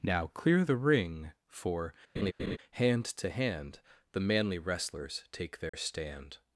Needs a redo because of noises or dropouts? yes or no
yes